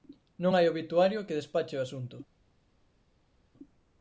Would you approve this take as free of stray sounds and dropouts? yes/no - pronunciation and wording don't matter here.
yes